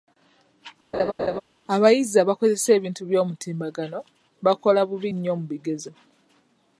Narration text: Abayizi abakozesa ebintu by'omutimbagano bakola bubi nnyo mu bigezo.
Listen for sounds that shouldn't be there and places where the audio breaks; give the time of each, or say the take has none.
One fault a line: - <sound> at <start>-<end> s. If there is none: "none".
- laugh at 0.9-1.4 s